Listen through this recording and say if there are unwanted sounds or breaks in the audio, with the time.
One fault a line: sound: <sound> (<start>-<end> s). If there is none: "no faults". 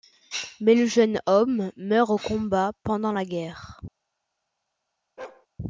sound: bark (5.2-5.5 s)